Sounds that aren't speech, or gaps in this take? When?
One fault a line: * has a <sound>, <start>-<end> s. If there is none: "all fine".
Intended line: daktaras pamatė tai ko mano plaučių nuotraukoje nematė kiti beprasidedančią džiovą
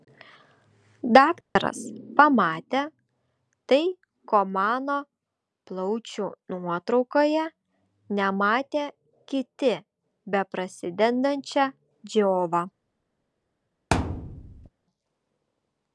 * has a dropout, 1.4-1.6 s
* has a thud, 13.9-14.7 s